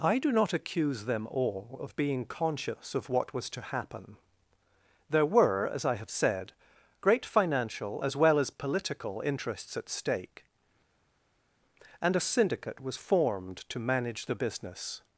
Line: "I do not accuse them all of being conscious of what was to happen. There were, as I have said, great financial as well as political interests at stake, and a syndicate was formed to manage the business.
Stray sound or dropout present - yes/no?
no